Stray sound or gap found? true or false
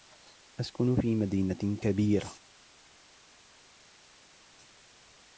false